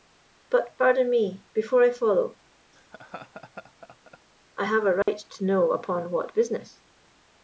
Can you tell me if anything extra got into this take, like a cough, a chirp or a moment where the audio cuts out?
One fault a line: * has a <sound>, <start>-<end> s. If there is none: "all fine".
* has a laugh, 2.7-4.2 s
* has a dropout, 5.0-5.1 s